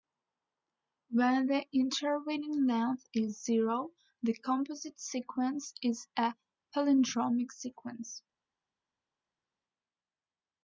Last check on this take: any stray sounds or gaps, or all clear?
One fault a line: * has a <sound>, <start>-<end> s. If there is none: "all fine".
all fine